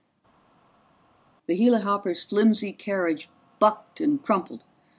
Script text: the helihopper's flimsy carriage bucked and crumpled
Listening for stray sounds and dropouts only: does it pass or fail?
pass